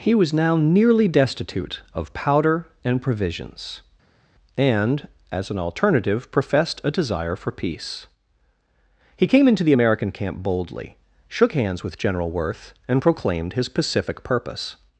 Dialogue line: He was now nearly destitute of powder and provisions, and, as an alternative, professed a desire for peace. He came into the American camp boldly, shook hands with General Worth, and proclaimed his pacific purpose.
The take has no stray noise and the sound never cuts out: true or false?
true